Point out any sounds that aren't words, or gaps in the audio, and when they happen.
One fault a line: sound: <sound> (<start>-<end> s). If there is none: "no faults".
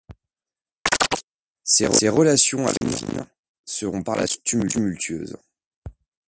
sound: chirp (0.9-1.2 s)
sound: dropout (2.8-2.8 s)